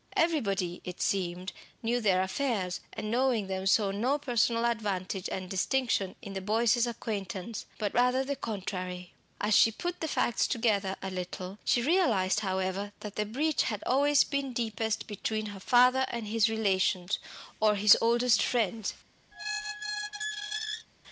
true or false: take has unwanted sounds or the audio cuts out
true